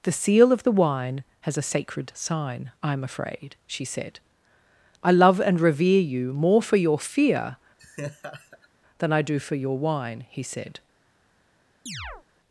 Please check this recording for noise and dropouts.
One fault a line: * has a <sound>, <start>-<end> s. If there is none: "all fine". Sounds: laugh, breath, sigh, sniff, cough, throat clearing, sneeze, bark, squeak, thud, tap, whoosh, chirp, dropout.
* has a laugh, 7.8-8.7 s
* has a chirp, 11.9-12.2 s